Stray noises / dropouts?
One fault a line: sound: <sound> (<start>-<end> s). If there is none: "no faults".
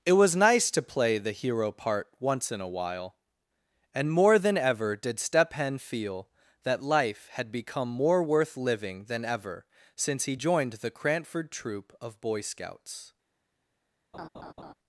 sound: laugh (14.1-14.7 s)